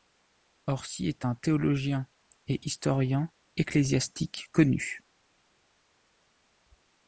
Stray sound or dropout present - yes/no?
no